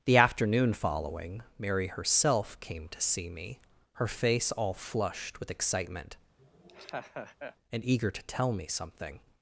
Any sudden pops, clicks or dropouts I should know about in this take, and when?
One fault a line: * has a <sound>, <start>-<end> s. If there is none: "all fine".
* has a laugh, 6.4-7.6 s